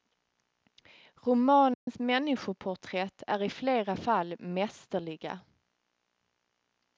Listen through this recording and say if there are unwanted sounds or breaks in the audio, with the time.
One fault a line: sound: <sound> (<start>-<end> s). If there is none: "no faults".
sound: dropout (1.7-1.9 s)